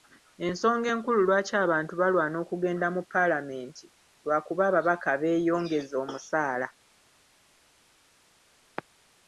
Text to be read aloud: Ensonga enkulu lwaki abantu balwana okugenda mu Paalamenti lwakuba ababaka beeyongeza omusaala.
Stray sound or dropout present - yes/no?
no